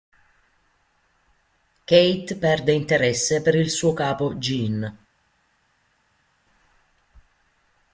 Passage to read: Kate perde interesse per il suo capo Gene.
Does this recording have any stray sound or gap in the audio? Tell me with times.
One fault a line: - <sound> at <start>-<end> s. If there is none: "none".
none